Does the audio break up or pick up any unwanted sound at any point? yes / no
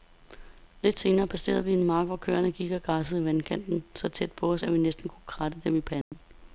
yes